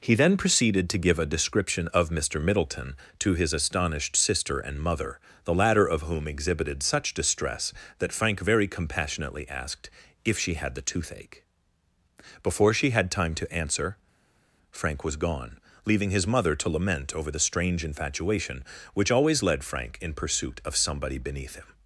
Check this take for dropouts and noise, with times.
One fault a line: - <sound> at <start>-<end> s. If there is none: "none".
none